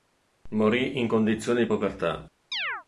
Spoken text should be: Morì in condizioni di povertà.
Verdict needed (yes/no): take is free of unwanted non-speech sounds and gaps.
no